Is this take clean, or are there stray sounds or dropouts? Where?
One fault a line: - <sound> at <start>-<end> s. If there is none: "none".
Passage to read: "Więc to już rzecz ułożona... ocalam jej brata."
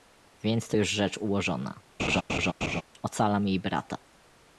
- laugh at 2.0-2.8 s